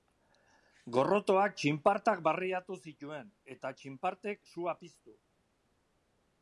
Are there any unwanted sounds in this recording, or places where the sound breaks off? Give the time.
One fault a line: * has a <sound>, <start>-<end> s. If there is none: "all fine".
all fine